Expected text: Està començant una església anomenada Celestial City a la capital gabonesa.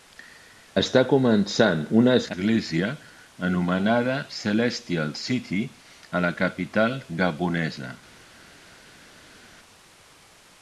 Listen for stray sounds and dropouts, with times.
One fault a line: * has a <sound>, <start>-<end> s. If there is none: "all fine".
all fine